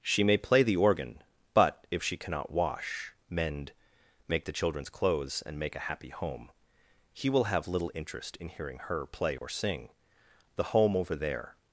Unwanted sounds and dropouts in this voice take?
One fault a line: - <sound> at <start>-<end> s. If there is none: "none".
- dropout at 9.4-9.4 s